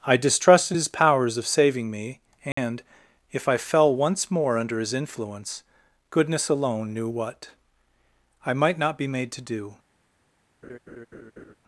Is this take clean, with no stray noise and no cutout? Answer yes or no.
no